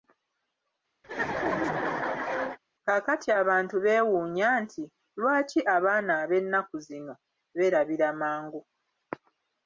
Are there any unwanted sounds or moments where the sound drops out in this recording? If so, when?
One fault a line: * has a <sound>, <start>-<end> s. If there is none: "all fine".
* has a laugh, 1.0-2.6 s